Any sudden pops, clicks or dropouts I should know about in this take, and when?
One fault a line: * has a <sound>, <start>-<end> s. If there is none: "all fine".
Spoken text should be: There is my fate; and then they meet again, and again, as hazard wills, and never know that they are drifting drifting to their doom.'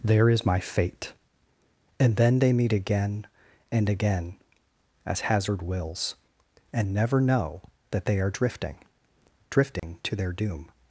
* has a dropout, 9.8-9.8 s